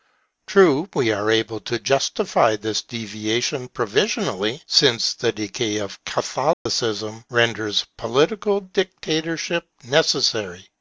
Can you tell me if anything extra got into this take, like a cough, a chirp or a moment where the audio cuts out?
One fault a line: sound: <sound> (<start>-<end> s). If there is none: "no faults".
sound: dropout (6.5-6.7 s)